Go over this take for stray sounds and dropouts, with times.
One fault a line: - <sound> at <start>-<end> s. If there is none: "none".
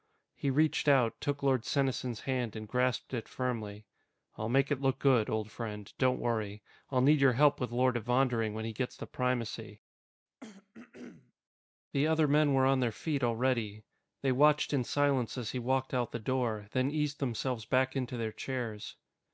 - throat clearing at 10.4-11.3 s